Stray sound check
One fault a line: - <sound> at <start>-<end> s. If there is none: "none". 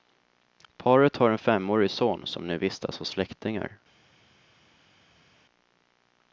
none